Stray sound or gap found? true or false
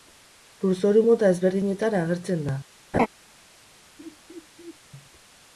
true